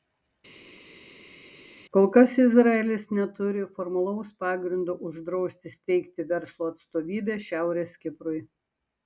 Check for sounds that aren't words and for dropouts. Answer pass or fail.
pass